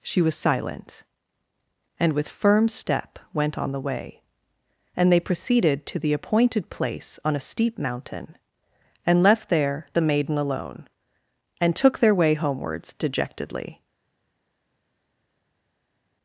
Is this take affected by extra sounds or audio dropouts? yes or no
no